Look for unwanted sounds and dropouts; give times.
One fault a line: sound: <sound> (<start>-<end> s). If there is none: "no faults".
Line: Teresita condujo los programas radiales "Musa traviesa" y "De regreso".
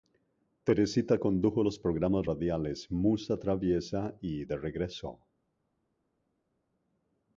no faults